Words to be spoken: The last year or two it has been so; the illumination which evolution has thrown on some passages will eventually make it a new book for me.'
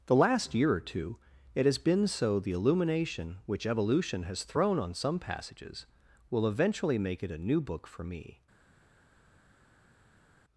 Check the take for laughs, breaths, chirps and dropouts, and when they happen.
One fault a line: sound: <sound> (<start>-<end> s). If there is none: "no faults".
no faults